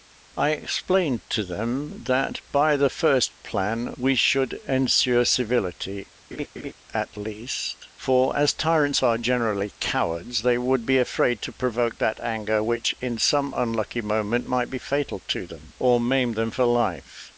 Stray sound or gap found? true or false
true